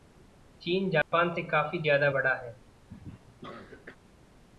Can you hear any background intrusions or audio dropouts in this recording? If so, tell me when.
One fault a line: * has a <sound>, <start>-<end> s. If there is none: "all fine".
* has a dropout, 1.0-1.1 s
* has a cough, 2.9-4.0 s